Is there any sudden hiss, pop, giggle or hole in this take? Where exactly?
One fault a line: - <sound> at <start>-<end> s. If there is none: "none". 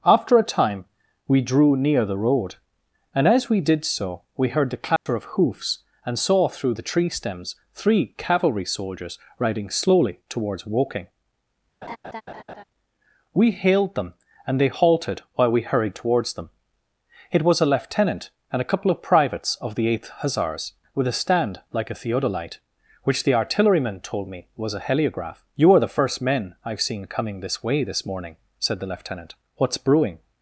- dropout at 5.0-5.1 s
- laugh at 11.8-12.6 s